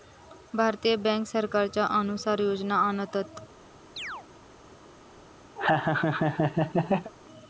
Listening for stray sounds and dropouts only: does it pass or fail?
fail